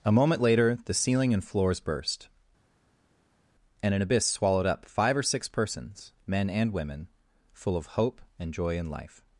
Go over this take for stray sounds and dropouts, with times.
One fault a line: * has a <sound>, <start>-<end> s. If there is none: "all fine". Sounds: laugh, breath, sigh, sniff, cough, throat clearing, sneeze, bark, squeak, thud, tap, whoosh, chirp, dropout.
all fine